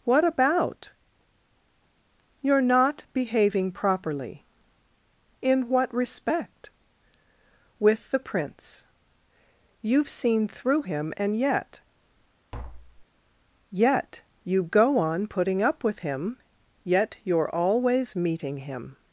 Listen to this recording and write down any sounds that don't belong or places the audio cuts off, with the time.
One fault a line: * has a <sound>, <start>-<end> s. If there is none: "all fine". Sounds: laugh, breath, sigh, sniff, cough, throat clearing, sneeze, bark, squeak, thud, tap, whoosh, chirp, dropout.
* has a tap, 12.5-13.1 s